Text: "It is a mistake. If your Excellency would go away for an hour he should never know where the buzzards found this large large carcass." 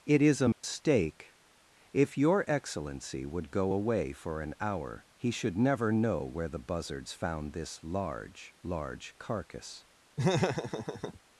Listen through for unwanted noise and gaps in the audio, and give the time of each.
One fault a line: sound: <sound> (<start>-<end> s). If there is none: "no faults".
sound: dropout (0.5-0.6 s)
sound: laugh (10.2-11.2 s)